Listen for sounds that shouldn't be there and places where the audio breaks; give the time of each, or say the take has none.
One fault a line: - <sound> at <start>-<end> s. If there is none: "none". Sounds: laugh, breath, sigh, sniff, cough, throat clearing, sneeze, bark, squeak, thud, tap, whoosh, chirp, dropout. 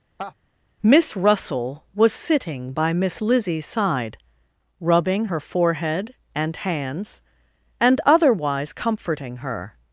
- laugh at 0.2-0.3 s